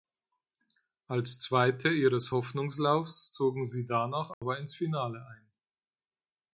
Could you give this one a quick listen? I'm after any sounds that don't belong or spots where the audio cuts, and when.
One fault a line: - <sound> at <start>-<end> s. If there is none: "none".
- dropout at 4.3-4.4 s